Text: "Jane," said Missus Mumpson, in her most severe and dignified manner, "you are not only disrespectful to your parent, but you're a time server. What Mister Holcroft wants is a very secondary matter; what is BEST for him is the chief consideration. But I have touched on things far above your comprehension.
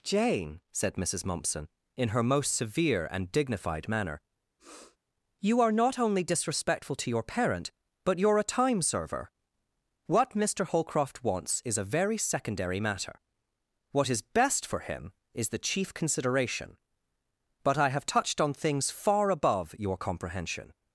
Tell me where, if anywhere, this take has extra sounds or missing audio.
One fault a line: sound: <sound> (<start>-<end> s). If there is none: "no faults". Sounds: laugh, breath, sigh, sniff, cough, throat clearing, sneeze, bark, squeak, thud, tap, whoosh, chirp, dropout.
sound: sniff (4.6-5.0 s)